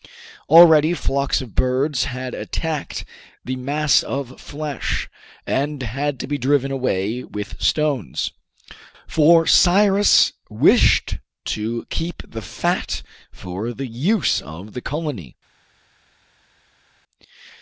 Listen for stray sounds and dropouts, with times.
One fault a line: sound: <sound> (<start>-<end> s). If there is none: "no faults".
no faults